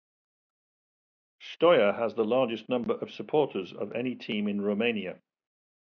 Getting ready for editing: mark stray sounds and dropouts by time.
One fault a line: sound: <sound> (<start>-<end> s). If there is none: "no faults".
no faults